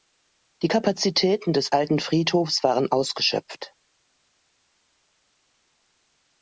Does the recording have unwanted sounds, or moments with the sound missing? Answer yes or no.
no